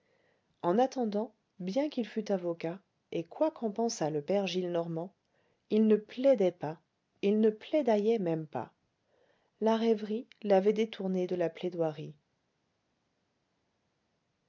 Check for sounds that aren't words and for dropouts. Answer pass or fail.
pass